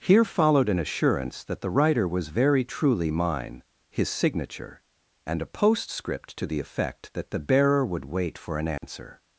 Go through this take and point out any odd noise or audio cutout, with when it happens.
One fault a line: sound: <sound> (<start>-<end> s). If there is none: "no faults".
sound: dropout (8.8-8.8 s)